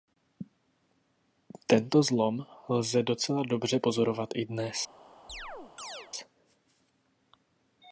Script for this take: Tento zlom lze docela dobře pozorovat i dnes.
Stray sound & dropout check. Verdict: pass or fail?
fail